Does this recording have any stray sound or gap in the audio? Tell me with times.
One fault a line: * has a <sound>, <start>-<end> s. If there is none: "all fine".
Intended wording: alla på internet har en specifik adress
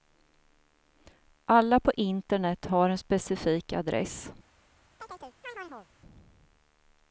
* has a chirp, 5.0-5.9 s